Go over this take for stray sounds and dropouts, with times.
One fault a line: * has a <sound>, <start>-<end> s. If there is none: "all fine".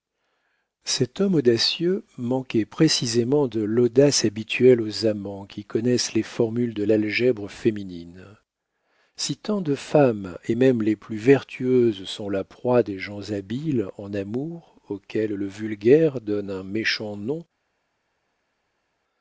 all fine